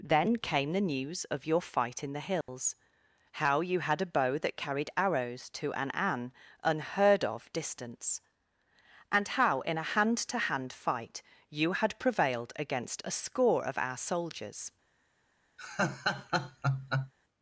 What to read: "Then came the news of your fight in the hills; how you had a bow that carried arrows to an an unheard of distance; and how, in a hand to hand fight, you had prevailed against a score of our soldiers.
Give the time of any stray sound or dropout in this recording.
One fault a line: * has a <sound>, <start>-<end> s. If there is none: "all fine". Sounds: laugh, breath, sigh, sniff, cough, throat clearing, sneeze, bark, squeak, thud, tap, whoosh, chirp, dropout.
* has a dropout, 2.4-2.5 s
* has a laugh, 15.6-17.1 s